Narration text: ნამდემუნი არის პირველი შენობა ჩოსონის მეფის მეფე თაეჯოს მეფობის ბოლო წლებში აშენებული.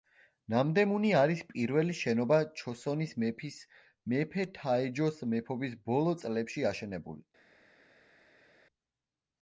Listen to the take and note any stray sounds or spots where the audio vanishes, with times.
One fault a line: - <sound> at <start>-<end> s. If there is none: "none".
none